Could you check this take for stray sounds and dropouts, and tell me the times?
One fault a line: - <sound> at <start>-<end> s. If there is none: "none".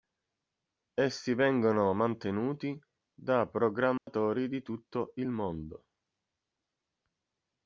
- dropout at 4.0-4.1 s